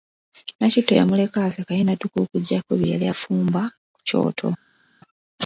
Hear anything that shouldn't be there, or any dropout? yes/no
no